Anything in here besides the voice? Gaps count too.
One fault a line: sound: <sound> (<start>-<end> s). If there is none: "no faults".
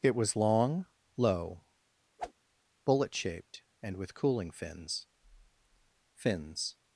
sound: whoosh (2.2-2.3 s)